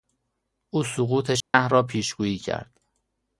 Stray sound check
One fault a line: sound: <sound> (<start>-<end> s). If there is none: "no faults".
sound: dropout (1.4-1.5 s)